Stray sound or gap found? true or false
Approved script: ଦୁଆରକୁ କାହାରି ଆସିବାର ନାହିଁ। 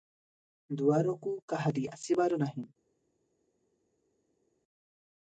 false